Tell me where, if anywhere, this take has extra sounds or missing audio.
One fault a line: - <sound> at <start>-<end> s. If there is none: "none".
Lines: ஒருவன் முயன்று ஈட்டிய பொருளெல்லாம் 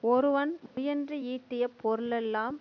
- dropout at 0.7-0.8 s